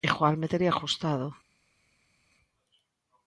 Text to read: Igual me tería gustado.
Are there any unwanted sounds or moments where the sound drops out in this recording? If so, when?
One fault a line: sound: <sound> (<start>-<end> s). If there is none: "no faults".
no faults